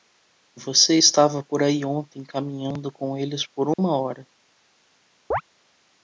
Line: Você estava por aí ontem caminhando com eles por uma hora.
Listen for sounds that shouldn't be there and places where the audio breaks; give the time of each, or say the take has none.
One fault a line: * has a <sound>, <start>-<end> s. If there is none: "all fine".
* has a dropout, 3.7-3.8 s
* has a chirp, 5.3-5.4 s